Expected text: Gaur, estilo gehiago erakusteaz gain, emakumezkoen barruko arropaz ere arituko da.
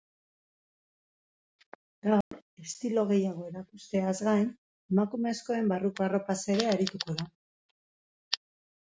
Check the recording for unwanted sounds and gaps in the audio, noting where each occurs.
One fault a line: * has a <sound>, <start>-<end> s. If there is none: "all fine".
* has a dropout, 2.2-2.3 s